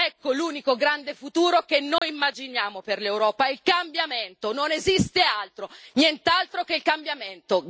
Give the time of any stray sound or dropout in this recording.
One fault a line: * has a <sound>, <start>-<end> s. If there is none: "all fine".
* has a dropout, 2.0-2.0 s